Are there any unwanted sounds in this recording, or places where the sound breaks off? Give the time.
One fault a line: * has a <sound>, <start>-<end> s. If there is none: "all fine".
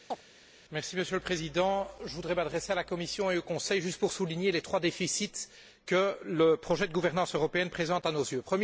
* has a chirp, 0.1-0.2 s